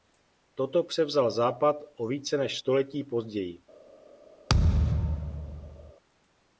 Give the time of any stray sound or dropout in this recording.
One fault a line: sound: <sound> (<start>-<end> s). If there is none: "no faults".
sound: thud (4.5-5.9 s)